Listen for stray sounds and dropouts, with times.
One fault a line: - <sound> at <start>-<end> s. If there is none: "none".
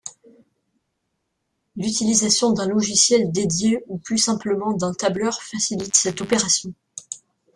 none